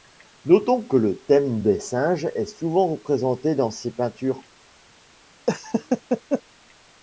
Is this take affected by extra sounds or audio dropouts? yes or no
yes